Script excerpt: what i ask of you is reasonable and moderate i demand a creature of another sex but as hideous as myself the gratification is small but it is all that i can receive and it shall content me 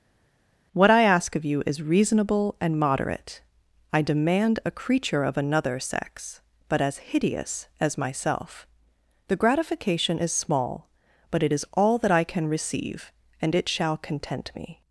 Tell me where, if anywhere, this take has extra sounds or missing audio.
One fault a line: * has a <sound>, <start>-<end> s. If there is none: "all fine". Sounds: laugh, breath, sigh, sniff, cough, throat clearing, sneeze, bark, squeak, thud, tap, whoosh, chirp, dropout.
all fine